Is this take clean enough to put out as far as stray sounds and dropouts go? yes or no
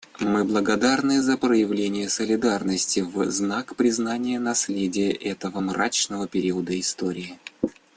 yes